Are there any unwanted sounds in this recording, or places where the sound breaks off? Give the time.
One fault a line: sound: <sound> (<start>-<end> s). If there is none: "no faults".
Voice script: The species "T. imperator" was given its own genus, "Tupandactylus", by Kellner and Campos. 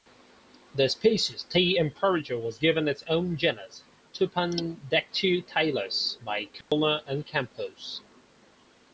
sound: dropout (6.6-6.7 s)